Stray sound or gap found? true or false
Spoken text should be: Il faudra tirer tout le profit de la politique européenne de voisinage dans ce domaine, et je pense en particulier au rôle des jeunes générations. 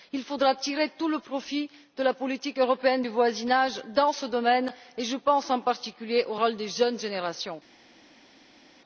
false